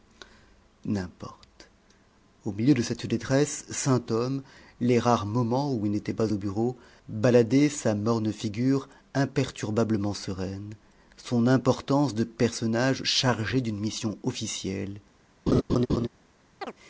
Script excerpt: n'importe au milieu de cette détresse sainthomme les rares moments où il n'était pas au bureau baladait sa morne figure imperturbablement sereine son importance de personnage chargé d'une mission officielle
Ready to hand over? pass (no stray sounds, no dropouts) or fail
fail